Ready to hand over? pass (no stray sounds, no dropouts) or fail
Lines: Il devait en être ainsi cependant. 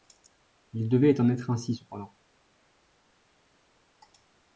pass